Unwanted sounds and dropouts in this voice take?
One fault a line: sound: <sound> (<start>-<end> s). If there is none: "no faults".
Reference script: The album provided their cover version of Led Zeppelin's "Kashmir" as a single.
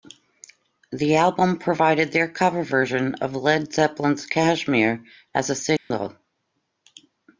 sound: dropout (5.8-5.9 s)